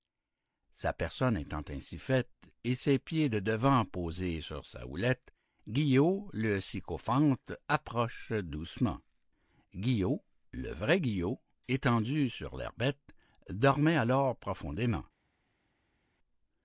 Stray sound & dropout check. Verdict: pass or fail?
pass